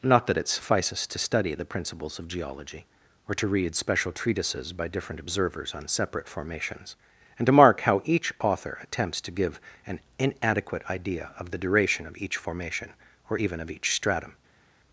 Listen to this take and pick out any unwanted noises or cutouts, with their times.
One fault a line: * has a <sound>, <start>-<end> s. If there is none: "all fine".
all fine